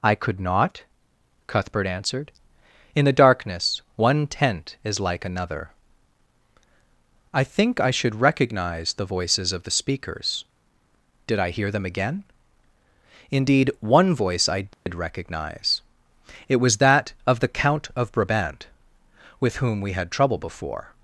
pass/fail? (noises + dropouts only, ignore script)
fail